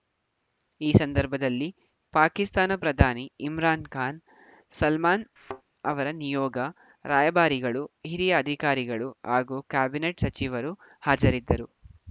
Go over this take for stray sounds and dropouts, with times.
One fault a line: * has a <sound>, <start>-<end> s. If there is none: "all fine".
* has a thud, 5.4-5.6 s